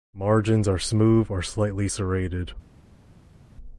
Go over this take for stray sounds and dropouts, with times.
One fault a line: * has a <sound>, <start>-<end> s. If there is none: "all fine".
all fine